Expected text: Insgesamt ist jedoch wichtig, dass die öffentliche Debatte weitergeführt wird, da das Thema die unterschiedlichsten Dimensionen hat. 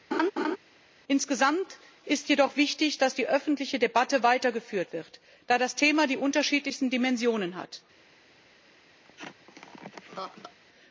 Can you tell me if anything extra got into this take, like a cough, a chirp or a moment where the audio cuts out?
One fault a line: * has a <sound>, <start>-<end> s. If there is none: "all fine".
* has a laugh, 0.1-0.6 s
* has a laugh, 9.0-10.6 s